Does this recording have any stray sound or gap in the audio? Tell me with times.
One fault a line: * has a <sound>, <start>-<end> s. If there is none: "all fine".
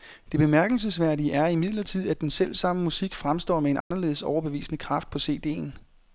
* has a dropout, 3.8-3.9 s